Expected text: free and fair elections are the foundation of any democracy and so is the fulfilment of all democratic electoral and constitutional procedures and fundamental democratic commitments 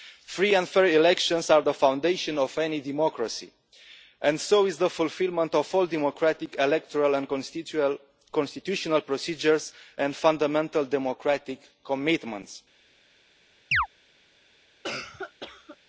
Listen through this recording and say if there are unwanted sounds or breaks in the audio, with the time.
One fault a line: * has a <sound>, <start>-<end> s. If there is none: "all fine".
* has a chirp, 13.7-13.9 s
* has a cough, 14.8-15.8 s